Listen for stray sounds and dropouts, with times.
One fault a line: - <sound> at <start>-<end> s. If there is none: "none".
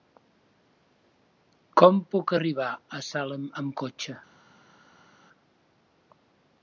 none